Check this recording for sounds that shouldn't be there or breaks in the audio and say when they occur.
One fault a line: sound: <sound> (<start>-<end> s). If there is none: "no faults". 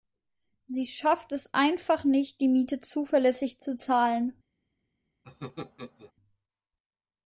sound: laugh (5.2-6.1 s)